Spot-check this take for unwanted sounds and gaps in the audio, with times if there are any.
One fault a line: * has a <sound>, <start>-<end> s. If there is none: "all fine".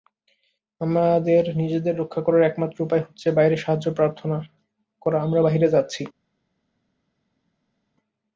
all fine